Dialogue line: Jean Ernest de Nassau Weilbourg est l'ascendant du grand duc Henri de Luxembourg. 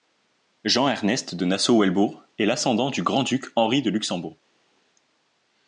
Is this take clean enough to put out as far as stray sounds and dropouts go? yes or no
yes